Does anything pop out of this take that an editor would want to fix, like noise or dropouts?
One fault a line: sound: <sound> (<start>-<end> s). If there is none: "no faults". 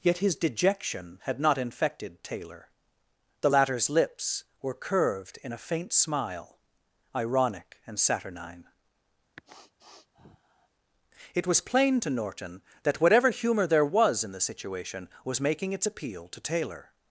sound: sniff (9.4-10.7 s)